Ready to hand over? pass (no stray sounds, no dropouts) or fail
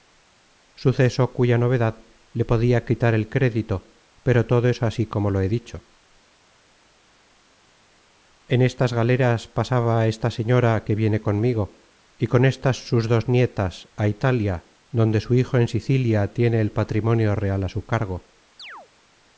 fail